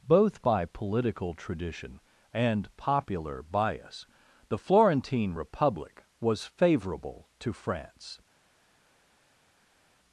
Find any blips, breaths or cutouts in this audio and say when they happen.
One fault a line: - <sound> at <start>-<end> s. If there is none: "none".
none